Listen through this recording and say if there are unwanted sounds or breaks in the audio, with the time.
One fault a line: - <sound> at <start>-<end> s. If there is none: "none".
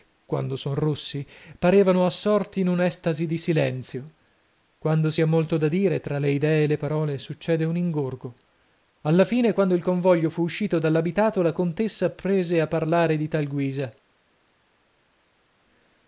none